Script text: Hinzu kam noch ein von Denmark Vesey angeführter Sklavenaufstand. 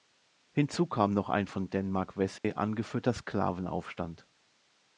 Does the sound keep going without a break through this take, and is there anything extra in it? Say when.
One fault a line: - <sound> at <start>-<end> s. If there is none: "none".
- dropout at 2.4-2.4 s